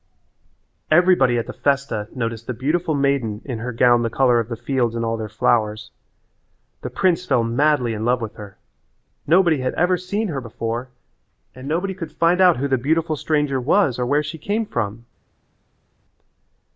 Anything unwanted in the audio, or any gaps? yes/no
no